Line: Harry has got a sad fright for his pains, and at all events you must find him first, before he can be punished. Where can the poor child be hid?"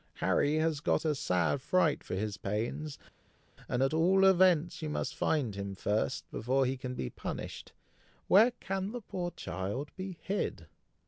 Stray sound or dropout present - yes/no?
no